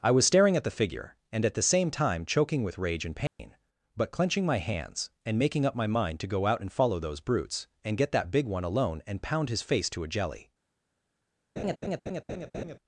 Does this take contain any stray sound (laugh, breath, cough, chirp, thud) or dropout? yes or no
yes